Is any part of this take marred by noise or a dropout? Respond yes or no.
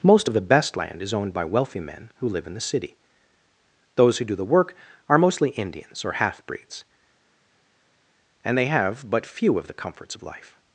no